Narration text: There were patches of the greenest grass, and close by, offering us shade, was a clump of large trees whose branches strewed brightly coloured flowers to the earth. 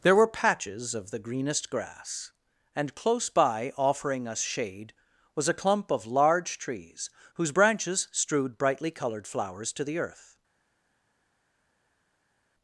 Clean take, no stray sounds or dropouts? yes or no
yes